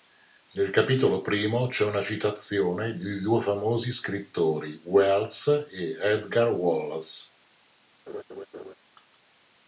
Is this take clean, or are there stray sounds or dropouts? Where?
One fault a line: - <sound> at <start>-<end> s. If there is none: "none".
- laugh at 8.1-8.7 s